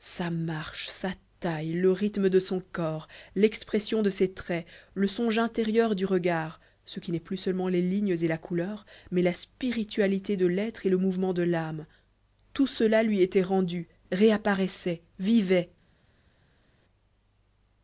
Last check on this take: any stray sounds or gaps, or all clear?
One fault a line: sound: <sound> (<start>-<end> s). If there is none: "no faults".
no faults